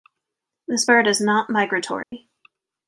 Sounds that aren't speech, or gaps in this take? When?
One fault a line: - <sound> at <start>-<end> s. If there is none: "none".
- dropout at 2.0-2.1 s